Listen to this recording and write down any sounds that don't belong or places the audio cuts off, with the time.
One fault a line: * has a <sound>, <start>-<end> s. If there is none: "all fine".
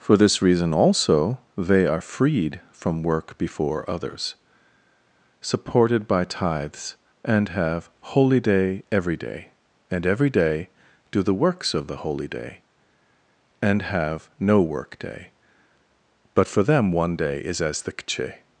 all fine